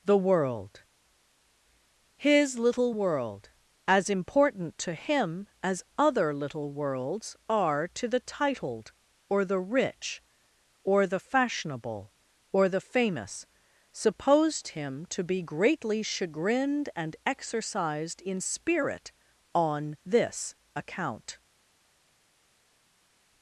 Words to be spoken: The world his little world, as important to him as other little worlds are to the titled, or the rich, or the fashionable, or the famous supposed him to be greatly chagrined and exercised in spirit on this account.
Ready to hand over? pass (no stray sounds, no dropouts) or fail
pass